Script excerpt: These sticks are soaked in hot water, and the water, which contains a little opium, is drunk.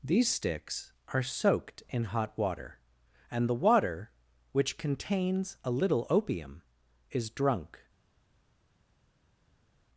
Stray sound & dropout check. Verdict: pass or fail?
pass